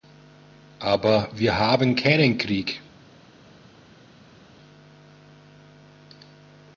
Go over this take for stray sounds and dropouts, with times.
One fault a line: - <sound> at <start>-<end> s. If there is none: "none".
none